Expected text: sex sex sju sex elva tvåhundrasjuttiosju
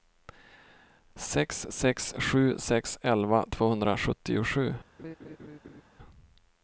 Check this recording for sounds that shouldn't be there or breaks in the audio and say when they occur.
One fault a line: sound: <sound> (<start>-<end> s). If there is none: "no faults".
sound: laugh (5.0-5.8 s)